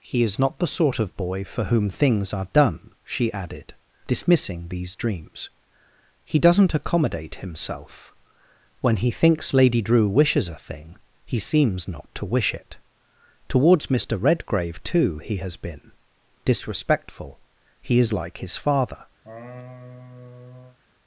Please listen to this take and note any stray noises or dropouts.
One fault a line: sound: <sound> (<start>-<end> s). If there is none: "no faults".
sound: laugh (19.2-20.8 s)